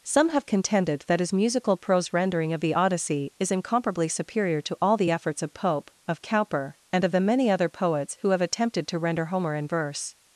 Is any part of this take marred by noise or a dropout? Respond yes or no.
no